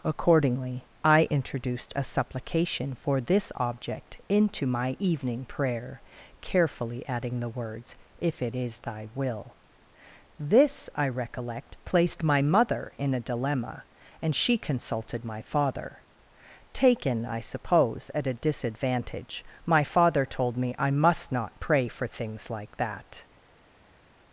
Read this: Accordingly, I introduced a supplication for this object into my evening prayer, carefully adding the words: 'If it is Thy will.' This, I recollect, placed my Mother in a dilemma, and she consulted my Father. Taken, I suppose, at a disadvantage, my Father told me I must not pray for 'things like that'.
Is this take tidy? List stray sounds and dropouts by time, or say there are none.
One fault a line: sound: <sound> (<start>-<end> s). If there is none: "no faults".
no faults